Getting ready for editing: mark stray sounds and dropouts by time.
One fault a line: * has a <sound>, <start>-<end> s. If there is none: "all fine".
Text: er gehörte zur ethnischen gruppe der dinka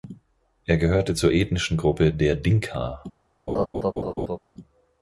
* has a laugh, 3.5-4.4 s